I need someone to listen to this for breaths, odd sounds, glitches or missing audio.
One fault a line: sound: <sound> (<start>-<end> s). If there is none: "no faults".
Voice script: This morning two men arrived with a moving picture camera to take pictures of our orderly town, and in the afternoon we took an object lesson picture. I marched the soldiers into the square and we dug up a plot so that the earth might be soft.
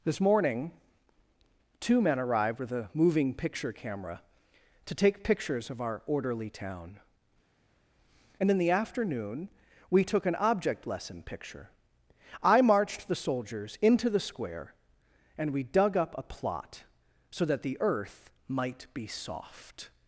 no faults